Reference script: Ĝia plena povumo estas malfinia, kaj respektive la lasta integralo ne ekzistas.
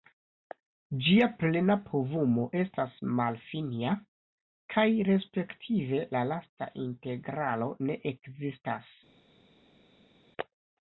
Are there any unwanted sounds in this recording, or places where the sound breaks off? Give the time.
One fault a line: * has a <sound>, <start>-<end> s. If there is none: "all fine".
all fine